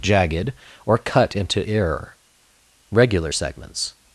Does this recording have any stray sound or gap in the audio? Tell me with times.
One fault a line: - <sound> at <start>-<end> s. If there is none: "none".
none